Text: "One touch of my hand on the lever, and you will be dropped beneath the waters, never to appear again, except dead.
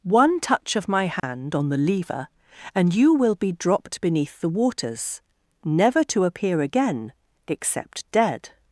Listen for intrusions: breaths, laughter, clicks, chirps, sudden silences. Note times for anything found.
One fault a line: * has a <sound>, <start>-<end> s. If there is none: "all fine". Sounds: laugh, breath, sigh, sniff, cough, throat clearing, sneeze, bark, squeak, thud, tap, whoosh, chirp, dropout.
* has a dropout, 1.2-1.2 s